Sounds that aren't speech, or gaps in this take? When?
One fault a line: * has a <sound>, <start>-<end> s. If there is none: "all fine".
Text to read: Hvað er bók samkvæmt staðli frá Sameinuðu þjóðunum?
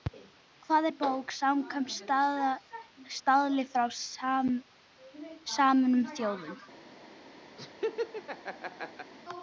* has a laugh, 7.6-9.1 s